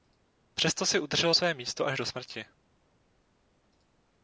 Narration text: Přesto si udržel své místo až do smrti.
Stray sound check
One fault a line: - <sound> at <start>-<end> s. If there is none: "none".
none